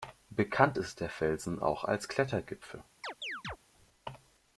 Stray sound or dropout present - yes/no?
yes